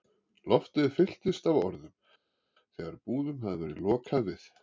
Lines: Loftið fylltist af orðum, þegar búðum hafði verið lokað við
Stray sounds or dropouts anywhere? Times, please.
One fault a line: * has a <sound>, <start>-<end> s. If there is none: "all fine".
all fine